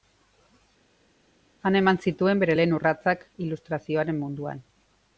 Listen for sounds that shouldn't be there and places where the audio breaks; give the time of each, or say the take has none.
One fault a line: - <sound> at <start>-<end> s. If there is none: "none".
none